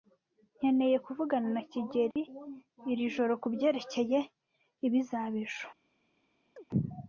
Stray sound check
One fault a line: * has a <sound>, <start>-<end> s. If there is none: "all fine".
* has a dropout, 2.1-2.2 s
* has a chirp, 6.6-6.6 s